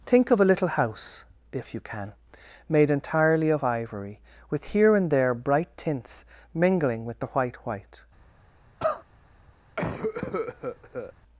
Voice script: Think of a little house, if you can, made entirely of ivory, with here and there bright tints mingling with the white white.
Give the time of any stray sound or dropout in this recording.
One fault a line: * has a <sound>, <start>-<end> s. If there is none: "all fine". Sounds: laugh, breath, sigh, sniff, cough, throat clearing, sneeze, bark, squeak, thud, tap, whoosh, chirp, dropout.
* has a cough, 8.8-9.0 s
* has a cough, 9.8-11.1 s